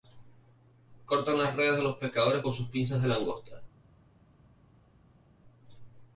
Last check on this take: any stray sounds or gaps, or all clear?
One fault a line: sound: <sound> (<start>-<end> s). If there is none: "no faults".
no faults